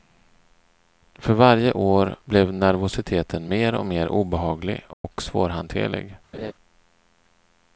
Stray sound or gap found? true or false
true